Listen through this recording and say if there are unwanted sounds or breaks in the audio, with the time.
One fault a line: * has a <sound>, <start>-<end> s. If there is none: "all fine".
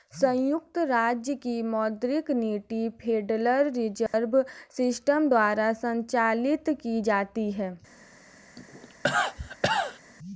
* has a dropout, 4.1-4.1 s
* has a cough, 8.6-10.0 s